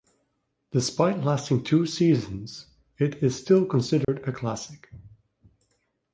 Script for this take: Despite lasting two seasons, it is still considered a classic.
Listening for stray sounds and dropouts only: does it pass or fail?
fail